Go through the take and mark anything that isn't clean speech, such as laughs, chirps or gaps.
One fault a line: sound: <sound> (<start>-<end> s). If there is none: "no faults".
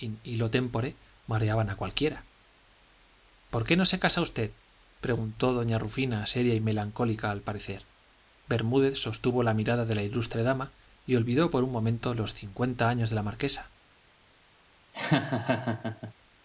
sound: laugh (14.9-16.1 s)